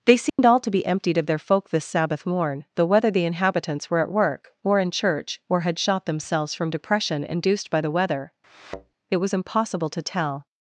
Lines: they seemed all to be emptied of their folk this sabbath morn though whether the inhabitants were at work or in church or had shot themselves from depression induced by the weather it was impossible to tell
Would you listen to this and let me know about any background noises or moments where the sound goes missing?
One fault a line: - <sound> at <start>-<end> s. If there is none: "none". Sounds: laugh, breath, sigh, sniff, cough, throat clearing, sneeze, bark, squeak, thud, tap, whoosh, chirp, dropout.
- dropout at 0.3-0.4 s
- thud at 8.4-8.9 s